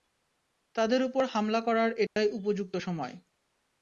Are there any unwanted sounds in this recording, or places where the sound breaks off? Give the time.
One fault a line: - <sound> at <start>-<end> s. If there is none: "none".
- dropout at 2.1-2.2 s